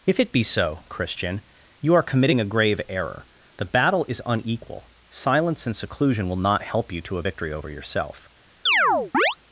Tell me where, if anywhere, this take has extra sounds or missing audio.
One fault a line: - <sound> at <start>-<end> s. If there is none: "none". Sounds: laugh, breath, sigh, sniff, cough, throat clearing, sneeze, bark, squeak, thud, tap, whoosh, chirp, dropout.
- chirp at 8.7-9.4 s